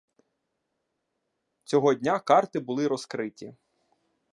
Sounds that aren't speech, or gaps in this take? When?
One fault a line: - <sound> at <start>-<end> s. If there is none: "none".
none